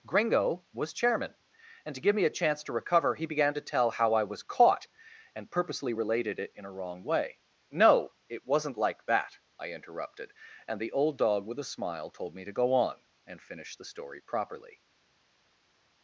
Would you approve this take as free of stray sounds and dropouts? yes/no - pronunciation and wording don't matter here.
yes